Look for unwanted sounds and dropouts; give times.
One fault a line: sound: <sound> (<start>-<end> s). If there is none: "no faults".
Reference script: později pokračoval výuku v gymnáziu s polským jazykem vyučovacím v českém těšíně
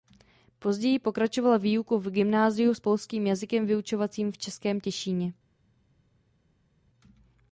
no faults